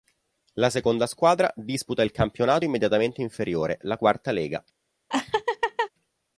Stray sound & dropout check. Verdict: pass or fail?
fail